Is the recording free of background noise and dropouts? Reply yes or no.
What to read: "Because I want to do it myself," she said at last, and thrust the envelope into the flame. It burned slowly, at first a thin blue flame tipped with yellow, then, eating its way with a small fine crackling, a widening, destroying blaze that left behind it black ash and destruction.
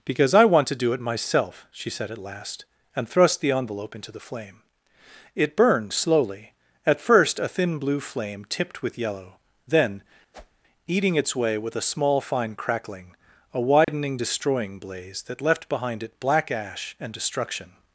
no